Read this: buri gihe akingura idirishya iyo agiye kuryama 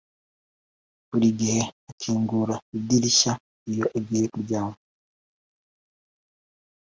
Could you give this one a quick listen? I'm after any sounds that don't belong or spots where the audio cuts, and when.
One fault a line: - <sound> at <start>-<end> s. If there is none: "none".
none